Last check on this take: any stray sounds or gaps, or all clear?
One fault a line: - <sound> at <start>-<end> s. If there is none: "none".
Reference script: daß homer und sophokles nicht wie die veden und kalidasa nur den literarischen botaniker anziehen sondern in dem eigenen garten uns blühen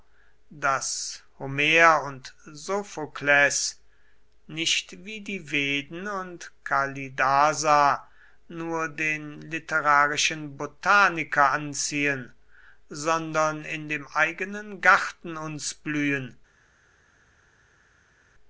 none